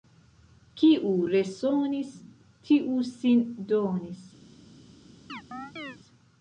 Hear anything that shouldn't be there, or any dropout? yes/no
yes